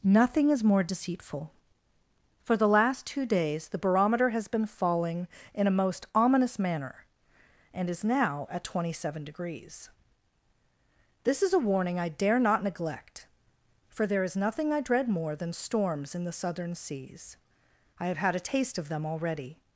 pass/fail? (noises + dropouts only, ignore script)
pass